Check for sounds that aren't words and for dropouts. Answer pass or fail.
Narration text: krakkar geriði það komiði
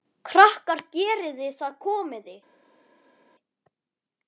pass